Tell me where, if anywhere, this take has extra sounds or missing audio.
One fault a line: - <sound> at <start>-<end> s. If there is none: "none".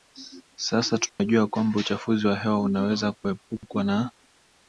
- dropout at 1.1-1.2 s